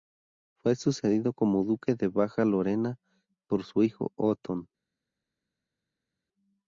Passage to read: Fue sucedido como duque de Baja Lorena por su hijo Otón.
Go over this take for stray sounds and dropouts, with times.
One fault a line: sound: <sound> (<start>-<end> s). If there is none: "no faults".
no faults